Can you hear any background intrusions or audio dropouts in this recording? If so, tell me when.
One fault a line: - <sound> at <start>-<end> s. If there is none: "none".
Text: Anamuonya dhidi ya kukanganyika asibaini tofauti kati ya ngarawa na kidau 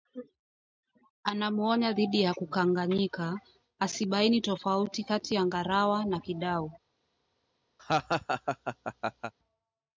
- laugh at 7.8-9.3 s